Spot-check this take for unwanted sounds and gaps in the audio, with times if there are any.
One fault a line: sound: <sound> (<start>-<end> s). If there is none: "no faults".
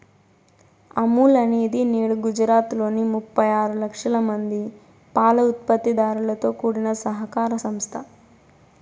no faults